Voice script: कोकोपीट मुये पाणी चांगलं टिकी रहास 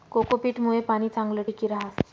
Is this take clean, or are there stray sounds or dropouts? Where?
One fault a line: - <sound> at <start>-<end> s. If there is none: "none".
none